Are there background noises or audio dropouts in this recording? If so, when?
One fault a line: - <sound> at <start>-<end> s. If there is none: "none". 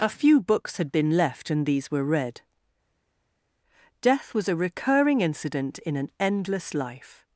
none